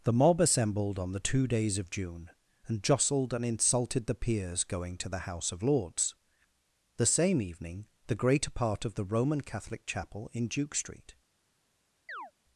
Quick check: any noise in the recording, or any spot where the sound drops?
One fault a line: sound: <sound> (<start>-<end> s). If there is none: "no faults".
sound: chirp (12.1-12.3 s)